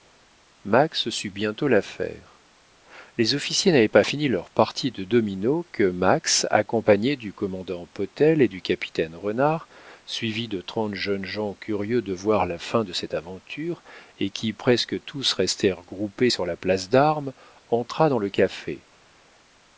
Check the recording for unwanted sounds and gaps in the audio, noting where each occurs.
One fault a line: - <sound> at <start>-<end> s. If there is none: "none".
none